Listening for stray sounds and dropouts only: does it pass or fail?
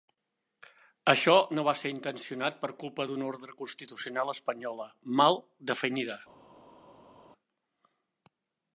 pass